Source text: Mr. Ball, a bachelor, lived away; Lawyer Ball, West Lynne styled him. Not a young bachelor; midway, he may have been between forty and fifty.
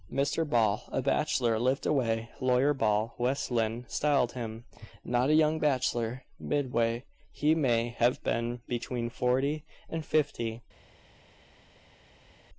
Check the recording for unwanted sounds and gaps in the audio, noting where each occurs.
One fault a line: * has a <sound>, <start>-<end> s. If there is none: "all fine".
all fine